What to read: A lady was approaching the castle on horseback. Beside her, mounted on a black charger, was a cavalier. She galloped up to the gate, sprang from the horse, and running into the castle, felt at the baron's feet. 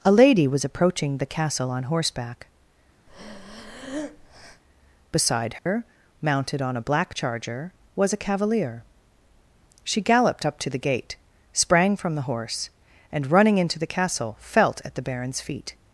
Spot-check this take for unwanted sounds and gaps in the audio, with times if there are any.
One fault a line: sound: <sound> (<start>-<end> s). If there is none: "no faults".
sound: breath (3.1-4.6 s)
sound: dropout (5.6-5.7 s)